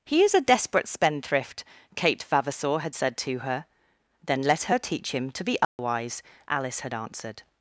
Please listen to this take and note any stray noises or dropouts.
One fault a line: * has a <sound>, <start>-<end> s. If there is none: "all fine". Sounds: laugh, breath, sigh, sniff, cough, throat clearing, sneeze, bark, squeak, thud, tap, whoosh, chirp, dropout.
* has a dropout, 5.6-5.8 s